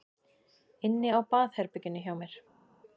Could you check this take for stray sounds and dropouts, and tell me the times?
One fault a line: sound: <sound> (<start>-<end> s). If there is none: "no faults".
no faults